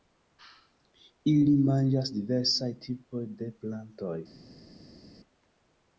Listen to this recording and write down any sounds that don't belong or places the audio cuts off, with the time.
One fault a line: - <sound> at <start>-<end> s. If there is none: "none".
none